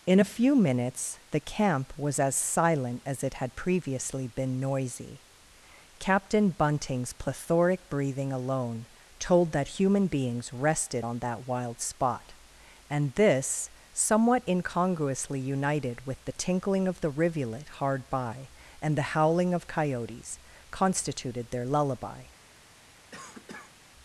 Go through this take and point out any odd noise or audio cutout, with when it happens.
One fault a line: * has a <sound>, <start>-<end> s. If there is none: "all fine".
* has a cough, 23.1-23.8 s